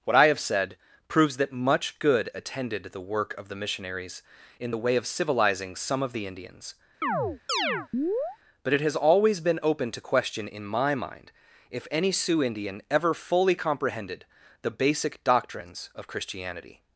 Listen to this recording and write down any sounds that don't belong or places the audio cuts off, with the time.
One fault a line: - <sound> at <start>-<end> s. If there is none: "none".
- chirp at 7.0-8.4 s